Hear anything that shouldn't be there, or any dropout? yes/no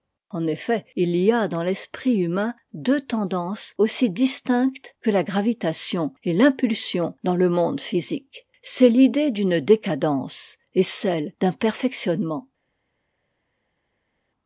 no